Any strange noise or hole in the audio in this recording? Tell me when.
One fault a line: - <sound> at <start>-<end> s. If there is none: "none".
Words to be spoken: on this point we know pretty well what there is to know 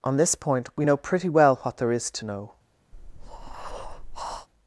- breath at 2.9-4.5 s